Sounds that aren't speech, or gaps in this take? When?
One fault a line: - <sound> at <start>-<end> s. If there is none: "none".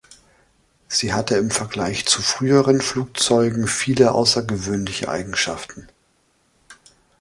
none